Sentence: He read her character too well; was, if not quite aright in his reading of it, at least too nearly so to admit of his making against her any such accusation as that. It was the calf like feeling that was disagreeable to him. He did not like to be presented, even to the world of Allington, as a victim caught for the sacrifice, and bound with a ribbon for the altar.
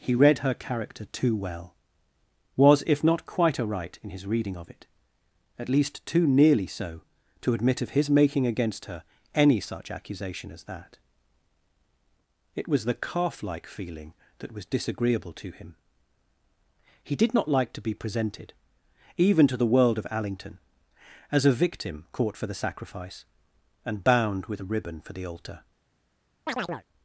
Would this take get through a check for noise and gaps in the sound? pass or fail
fail